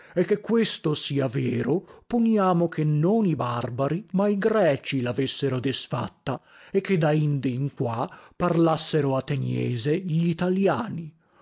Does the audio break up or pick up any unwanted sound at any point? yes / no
no